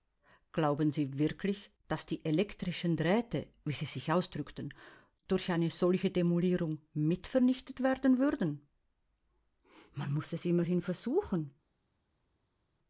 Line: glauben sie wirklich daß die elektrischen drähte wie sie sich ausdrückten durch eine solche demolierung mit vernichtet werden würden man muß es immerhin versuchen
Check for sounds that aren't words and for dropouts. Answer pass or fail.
pass